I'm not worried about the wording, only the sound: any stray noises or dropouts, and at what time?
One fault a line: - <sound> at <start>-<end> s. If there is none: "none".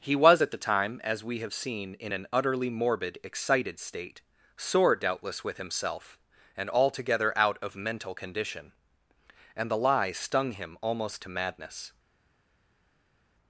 none